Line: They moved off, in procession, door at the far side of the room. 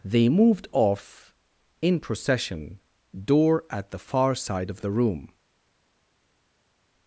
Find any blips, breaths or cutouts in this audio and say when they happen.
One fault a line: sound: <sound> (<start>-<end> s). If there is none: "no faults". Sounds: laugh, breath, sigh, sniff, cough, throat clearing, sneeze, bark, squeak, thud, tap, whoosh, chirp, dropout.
no faults